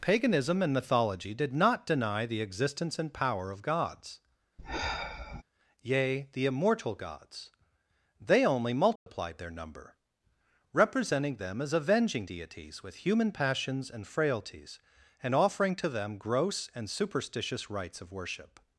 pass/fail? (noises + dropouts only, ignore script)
fail